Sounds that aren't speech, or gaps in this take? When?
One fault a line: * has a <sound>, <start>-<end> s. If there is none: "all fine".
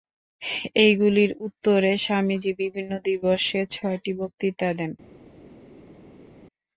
all fine